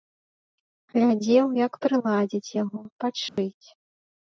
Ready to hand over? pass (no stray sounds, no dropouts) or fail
fail